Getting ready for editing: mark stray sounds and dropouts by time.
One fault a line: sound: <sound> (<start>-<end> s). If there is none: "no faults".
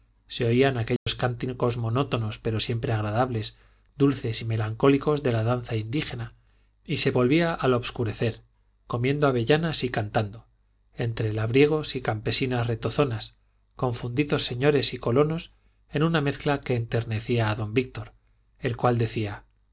sound: dropout (1.0-1.1 s)